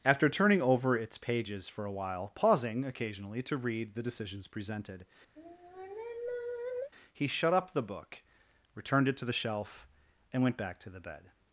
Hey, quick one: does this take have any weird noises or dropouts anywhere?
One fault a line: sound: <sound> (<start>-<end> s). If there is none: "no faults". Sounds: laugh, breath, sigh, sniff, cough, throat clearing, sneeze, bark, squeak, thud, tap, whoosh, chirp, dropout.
sound: sigh (5.4-6.9 s)